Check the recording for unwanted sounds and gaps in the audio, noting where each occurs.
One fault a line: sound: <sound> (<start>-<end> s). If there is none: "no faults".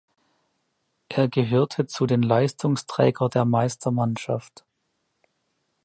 no faults